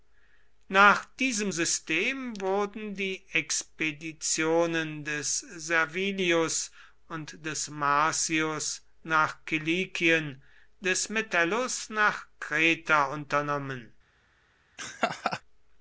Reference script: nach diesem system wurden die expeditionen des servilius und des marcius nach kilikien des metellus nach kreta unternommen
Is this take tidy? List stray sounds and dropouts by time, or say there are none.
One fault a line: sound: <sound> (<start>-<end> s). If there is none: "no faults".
sound: laugh (14.8-15.4 s)